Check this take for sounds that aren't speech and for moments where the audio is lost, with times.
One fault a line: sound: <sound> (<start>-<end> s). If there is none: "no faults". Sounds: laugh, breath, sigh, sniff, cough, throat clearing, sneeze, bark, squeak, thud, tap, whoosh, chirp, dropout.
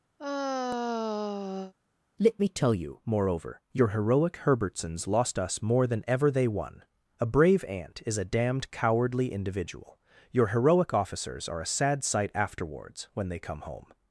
sound: sigh (0.2-1.7 s)